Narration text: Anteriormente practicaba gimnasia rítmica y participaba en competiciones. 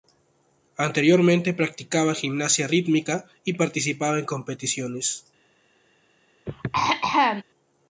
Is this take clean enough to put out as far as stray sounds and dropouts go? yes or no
no